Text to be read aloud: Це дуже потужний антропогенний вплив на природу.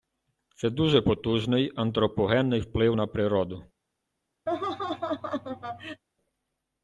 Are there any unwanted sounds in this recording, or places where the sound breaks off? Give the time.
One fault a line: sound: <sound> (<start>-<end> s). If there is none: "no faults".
sound: laugh (4.5-6.0 s)